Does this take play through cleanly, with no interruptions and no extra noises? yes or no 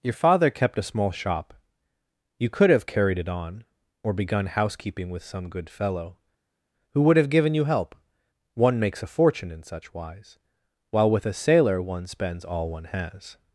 yes